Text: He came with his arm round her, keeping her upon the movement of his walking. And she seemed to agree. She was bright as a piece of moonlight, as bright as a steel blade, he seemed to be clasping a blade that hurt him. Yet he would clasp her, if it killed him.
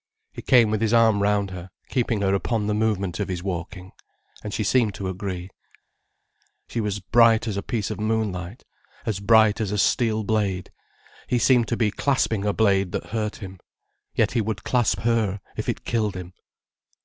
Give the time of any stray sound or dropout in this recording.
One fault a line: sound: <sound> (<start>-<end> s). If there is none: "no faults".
no faults